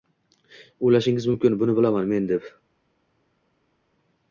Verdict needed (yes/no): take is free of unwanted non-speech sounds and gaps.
yes